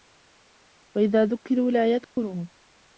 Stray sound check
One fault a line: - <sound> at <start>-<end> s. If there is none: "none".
- dropout at 2.0-2.2 s